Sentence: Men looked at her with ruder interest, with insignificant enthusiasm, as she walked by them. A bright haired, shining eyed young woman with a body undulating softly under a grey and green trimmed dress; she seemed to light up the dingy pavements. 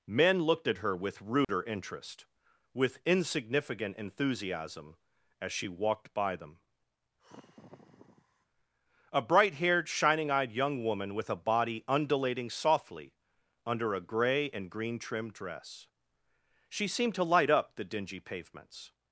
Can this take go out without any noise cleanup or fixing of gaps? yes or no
no